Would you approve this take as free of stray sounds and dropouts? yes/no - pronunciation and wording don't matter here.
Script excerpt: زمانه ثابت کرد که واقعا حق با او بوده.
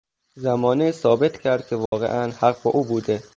no